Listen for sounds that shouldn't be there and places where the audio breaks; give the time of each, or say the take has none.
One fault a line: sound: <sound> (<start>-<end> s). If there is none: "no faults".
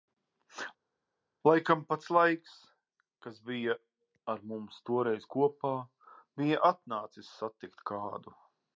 no faults